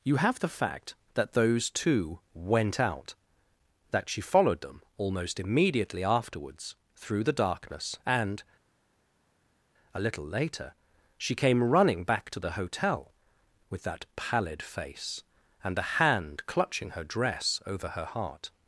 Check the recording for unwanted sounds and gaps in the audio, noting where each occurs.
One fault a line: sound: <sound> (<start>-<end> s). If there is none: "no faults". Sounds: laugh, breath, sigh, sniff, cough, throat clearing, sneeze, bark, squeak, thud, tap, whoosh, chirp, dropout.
no faults